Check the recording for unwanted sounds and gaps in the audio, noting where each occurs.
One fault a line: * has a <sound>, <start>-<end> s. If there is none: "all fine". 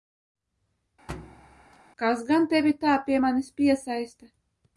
* has a thud, 1.1-1.8 s